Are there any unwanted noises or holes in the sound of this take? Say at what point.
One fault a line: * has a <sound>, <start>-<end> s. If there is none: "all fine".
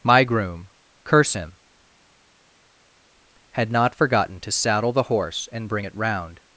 all fine